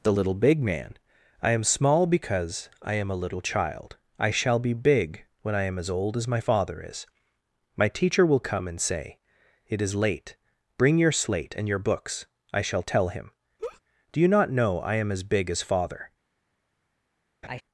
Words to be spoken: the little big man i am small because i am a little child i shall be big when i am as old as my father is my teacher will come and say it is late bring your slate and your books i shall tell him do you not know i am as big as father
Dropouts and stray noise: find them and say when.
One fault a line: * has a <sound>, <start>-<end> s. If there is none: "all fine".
* has a laugh, 13.6-13.8 s
* has a laugh, 17.4-17.6 s